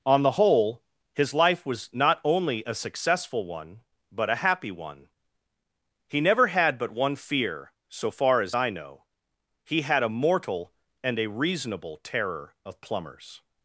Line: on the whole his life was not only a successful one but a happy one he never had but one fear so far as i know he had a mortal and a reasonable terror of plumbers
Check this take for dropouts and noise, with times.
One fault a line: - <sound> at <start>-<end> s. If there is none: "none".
none